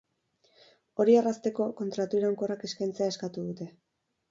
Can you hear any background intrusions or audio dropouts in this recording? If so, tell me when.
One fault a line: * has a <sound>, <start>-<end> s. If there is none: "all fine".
all fine